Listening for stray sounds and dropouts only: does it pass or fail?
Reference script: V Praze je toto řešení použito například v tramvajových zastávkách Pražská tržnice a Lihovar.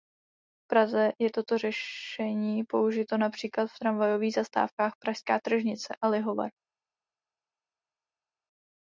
pass